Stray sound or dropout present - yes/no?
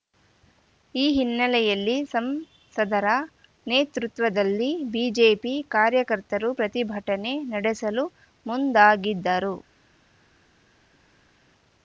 no